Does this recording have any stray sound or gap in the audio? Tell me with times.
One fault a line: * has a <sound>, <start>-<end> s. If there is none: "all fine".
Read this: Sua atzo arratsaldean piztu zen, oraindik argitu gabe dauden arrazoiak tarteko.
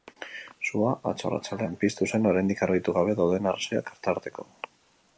all fine